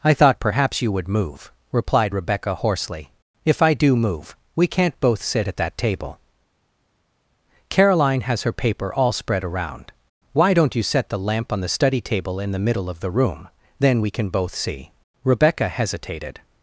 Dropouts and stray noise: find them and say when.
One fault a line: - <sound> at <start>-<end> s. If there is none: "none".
none